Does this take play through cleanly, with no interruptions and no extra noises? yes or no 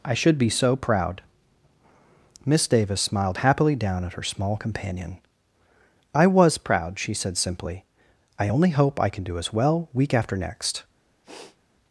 no